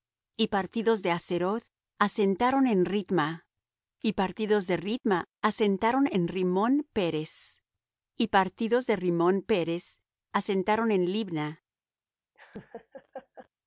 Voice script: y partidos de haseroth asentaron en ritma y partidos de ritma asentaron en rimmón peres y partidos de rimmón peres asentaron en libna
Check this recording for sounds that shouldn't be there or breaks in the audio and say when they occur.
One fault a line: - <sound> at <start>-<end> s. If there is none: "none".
- laugh at 12.3-13.5 s